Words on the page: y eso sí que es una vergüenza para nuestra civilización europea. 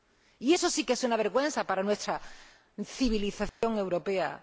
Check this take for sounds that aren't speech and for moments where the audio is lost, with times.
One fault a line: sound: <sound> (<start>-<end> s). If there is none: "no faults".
sound: dropout (3.5-3.6 s)